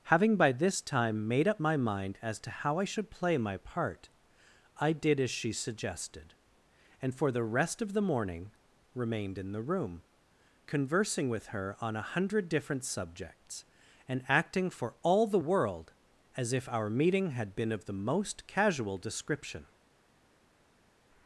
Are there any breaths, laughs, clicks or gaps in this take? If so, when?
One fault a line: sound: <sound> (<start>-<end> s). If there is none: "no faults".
no faults